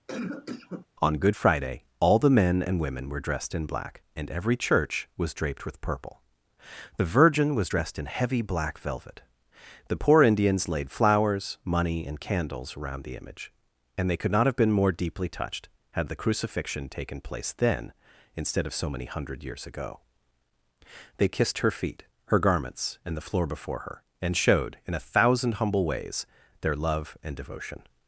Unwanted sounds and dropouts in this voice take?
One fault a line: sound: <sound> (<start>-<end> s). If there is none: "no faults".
sound: cough (0.1-0.9 s)